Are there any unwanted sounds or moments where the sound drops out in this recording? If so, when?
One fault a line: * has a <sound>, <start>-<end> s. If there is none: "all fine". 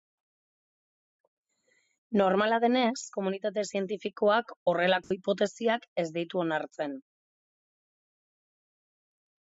* has a dropout, 5.0-5.1 s